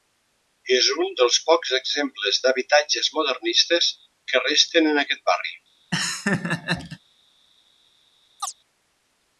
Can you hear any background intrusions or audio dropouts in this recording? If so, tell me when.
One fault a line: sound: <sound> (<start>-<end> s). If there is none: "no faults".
sound: laugh (5.9-7.0 s)
sound: chirp (8.4-8.5 s)